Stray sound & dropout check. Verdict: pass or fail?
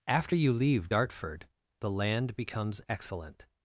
pass